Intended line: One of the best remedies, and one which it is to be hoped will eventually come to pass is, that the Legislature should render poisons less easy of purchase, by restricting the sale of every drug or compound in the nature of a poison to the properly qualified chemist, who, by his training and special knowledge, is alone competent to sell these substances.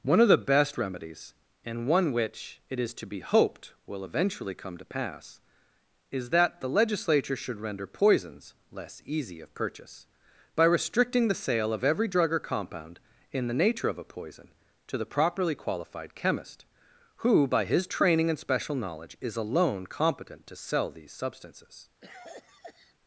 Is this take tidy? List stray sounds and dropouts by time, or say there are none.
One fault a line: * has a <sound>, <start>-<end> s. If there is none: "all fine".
* has a cough, 22.0-22.9 s